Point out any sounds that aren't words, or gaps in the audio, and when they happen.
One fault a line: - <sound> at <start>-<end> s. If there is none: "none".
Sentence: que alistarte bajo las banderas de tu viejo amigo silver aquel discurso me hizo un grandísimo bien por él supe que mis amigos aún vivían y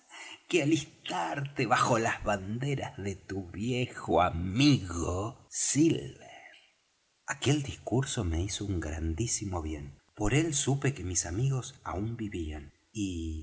none